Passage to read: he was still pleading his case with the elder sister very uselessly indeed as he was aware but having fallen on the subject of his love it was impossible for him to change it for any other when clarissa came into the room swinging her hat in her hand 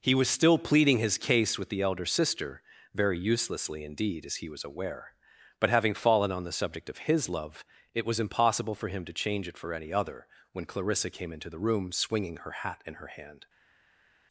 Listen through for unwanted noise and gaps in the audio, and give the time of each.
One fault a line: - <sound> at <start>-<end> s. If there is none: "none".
none